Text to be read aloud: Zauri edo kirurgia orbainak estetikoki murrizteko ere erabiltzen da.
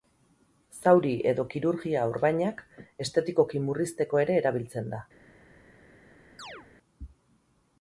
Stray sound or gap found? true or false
true